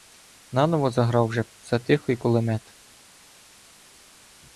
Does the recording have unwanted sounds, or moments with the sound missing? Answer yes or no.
no